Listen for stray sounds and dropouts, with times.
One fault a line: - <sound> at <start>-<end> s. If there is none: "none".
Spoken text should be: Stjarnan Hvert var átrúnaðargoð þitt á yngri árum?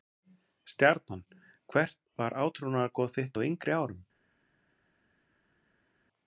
none